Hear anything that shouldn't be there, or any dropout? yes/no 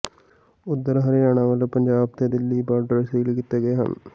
no